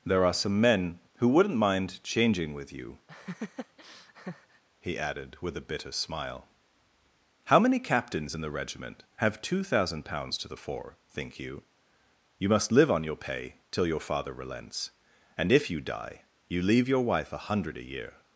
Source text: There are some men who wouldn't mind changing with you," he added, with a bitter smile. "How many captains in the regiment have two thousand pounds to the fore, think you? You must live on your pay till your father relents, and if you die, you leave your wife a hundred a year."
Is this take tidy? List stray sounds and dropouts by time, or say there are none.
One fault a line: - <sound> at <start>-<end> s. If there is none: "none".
- laugh at 3.1-4.6 s